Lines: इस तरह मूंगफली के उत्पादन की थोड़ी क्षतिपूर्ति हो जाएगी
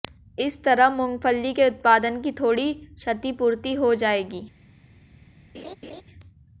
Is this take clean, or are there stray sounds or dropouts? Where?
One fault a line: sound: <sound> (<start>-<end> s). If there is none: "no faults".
sound: laugh (5.5-6.0 s)